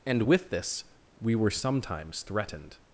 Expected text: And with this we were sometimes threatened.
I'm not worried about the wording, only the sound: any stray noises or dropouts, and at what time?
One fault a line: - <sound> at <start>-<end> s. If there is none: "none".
none